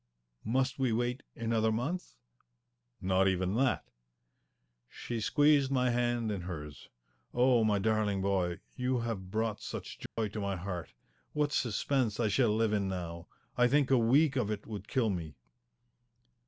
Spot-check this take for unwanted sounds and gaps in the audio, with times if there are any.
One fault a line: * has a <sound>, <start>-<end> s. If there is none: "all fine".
* has a dropout, 10.1-10.2 s